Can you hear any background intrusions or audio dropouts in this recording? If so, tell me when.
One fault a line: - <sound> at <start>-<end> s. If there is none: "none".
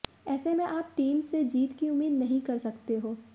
none